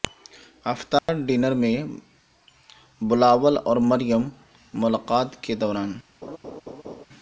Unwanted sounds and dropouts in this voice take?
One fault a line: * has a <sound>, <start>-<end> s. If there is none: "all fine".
* has a dropout, 1.0-1.1 s
* has a laugh, 6.2-7.0 s